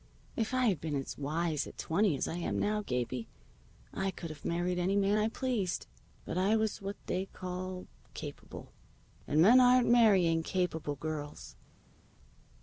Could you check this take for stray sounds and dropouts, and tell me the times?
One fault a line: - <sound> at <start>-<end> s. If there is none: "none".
none